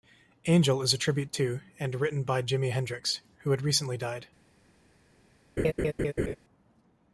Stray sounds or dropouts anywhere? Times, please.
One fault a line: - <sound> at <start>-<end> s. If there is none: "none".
- laugh at 5.6-6.4 s